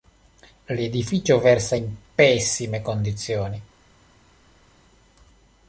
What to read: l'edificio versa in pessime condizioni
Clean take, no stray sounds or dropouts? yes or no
yes